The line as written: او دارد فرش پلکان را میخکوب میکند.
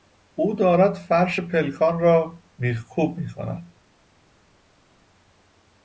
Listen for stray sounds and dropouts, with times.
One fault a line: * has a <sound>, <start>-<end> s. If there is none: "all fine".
all fine